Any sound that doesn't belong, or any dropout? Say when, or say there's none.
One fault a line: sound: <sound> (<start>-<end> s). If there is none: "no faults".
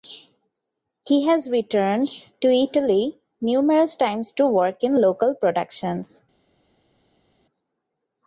no faults